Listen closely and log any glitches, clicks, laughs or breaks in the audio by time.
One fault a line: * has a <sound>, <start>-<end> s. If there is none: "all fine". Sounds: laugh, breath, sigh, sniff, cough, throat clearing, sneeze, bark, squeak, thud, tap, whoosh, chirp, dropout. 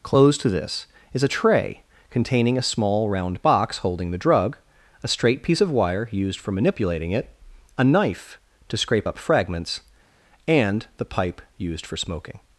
all fine